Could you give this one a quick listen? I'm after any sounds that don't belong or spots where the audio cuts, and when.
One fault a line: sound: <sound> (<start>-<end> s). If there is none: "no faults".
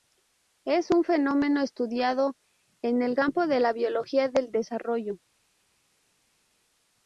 no faults